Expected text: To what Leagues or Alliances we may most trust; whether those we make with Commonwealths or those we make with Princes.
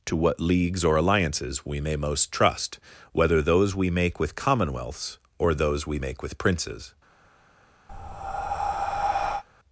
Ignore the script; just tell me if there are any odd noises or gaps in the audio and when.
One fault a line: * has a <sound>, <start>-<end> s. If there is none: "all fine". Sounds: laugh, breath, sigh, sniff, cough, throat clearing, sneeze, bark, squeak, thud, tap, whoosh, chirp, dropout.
* has a breath, 7.9-9.4 s